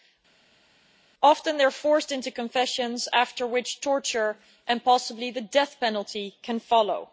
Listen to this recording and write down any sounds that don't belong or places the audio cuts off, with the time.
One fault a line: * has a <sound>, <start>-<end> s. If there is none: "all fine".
all fine